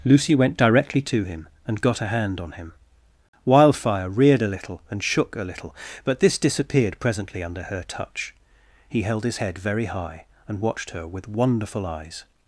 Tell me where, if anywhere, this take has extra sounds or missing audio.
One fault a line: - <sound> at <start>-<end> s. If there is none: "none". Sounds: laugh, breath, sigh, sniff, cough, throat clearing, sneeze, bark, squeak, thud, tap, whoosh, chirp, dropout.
none